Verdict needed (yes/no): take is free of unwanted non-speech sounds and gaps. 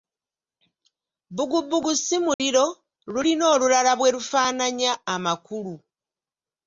no